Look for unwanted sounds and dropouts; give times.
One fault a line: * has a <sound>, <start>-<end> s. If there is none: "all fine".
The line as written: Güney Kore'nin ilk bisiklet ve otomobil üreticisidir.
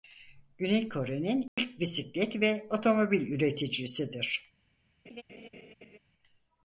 * has a dropout, 1.5-1.6 s
* has a laugh, 5.1-6.0 s